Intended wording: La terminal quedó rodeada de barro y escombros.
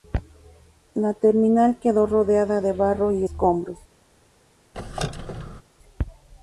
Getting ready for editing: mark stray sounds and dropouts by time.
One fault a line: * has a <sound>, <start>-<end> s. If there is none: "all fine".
* has a squeak, 4.7-5.6 s